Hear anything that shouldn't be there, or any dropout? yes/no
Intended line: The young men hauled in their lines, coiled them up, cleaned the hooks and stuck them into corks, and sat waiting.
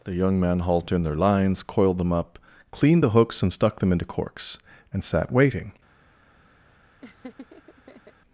yes